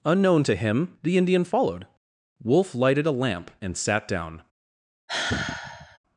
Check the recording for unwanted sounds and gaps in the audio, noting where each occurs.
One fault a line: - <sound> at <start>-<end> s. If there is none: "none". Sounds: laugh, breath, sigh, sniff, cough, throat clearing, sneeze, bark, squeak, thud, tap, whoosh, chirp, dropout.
- sigh at 5.1-6.0 s